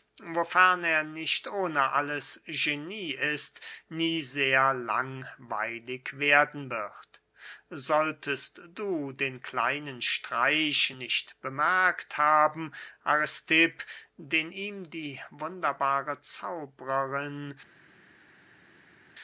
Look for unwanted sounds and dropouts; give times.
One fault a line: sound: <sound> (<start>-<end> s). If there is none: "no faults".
no faults